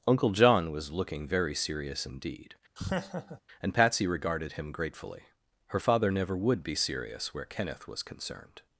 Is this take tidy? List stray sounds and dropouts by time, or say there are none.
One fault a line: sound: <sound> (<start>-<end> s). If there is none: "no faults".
sound: laugh (2.8-3.4 s)